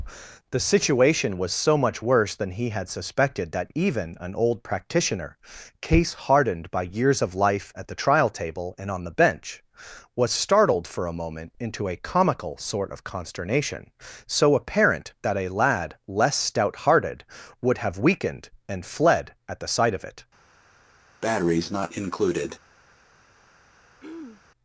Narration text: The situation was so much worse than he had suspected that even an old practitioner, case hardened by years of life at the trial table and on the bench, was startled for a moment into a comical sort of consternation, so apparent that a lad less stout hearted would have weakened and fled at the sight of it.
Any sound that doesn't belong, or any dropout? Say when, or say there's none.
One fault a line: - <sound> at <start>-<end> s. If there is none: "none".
- breath at 21.2-22.6 s
- throat clearing at 24.0-24.4 s